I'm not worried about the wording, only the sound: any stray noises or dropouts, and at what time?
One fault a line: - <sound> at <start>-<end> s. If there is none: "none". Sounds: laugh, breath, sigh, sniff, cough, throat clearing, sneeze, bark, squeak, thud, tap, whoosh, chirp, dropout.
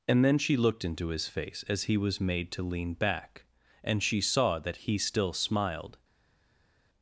none